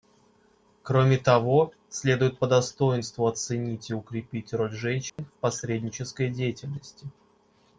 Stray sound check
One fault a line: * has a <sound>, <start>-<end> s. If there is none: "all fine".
* has a dropout, 5.1-5.2 s